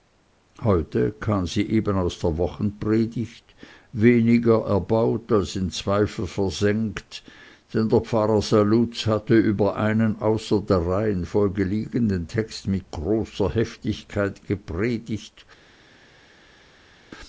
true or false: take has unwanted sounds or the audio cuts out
false